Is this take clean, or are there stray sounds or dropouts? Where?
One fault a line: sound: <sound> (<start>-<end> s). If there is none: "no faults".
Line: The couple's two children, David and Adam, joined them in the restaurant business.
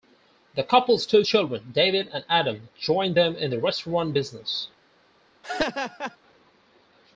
sound: laugh (5.4-6.2 s)